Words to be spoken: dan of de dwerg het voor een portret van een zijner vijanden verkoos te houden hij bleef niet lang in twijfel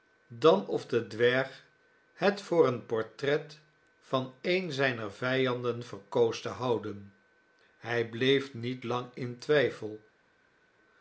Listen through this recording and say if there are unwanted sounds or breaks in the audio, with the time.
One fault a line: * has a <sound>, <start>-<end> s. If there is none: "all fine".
all fine